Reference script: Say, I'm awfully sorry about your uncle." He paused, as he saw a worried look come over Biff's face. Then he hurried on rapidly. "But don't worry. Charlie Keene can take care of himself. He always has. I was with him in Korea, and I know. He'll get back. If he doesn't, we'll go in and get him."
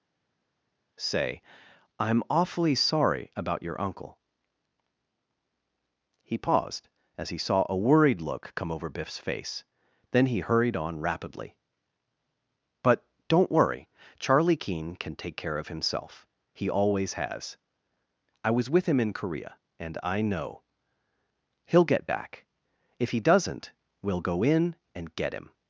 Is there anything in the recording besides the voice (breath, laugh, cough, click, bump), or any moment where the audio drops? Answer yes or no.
no